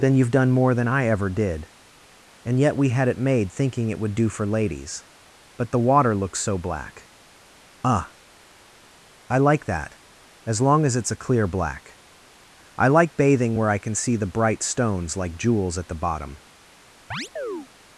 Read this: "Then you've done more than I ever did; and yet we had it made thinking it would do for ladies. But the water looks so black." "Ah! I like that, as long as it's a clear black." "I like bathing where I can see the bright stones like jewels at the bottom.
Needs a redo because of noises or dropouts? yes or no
yes